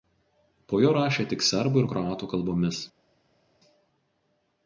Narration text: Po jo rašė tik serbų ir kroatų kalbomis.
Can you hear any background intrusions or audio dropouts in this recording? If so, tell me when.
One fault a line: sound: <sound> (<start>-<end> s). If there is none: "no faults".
no faults